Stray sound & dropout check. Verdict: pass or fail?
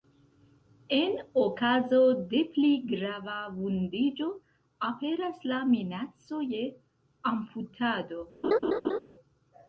fail